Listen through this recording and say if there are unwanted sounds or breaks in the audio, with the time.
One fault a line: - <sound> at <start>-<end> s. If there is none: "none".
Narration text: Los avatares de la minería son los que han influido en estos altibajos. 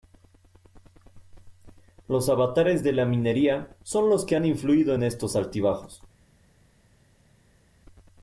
none